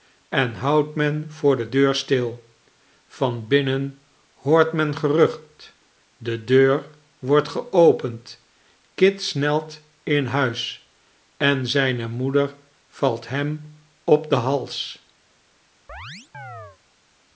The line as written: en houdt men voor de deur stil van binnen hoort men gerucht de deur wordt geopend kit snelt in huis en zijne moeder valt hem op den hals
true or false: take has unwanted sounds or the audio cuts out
true